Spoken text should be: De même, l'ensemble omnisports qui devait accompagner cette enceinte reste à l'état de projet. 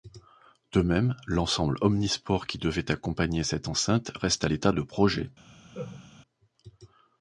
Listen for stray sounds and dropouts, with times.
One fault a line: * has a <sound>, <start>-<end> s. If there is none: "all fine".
* has a laugh, 5.7-6.1 s